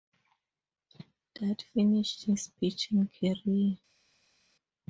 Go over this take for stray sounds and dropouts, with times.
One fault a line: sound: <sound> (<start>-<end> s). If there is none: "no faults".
no faults